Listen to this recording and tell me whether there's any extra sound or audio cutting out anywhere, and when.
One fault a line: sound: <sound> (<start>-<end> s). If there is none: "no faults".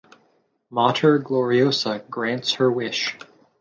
no faults